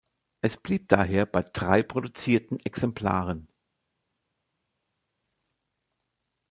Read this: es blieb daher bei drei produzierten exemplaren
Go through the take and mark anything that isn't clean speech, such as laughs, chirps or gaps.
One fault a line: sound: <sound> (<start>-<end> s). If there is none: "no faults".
no faults